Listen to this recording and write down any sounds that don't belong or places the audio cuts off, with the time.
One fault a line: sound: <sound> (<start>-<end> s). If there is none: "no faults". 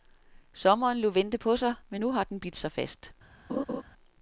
sound: laugh (3.5-3.8 s)